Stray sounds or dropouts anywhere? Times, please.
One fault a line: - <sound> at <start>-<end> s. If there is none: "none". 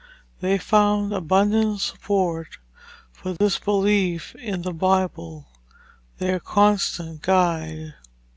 - dropout at 3.4-3.4 s